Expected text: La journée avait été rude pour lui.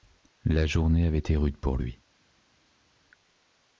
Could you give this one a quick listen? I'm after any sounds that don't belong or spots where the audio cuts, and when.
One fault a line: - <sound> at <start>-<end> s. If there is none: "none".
none